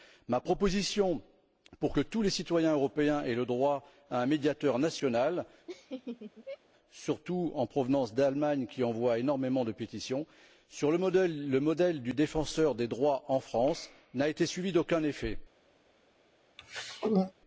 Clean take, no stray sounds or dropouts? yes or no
no